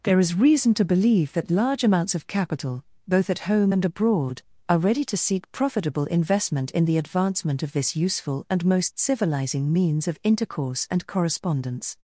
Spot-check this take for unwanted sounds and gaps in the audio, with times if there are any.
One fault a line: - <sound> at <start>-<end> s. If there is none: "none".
none